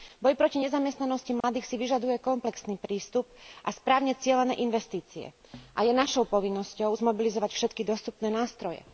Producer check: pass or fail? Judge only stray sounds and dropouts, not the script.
fail